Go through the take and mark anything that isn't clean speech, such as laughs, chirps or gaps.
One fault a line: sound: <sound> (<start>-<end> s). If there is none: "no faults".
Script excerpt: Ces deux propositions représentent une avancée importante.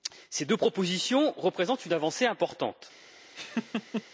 sound: laugh (3.3-4.0 s)